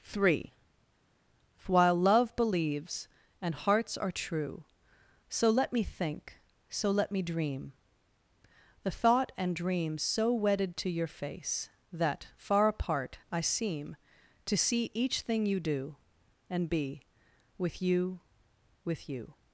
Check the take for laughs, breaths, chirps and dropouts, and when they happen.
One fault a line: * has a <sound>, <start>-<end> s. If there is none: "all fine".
all fine